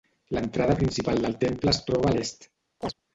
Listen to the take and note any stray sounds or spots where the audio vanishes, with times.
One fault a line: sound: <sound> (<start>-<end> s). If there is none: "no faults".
sound: chirp (2.8-2.9 s)